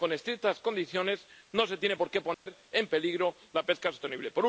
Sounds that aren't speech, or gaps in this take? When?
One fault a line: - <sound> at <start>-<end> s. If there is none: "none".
- dropout at 2.3-2.5 s